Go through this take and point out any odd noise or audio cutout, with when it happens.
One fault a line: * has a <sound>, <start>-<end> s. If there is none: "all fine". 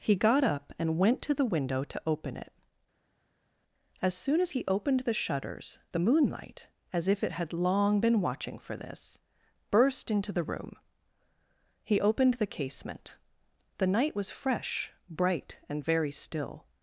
all fine